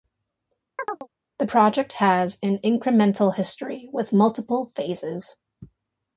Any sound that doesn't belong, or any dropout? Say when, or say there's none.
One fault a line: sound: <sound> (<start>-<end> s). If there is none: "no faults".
sound: chirp (0.8-1.1 s)